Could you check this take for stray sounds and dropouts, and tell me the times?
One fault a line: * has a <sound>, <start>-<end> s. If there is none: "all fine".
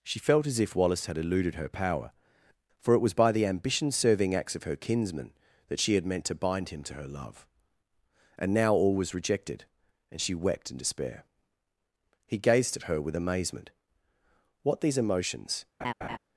* has a laugh, 15.8-16.2 s